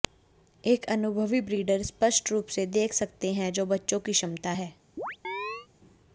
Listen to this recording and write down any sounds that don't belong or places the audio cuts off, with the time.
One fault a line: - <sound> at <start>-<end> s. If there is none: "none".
- chirp at 5.0-5.7 s